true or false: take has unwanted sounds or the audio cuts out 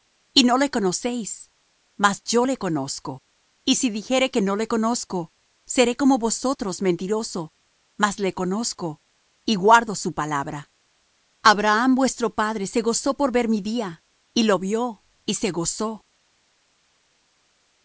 false